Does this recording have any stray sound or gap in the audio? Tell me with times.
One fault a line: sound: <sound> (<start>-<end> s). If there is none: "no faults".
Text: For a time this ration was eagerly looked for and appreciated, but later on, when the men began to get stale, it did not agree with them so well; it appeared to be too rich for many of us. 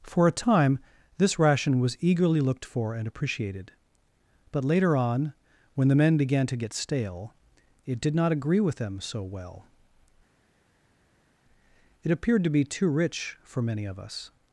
no faults